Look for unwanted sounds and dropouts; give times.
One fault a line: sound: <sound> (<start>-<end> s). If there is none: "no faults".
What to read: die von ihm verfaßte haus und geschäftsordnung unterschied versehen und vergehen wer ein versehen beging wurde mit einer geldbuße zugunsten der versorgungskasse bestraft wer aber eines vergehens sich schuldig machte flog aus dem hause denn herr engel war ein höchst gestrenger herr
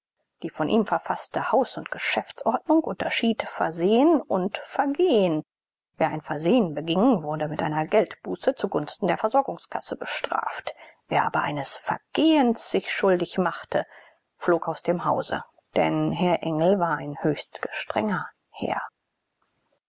no faults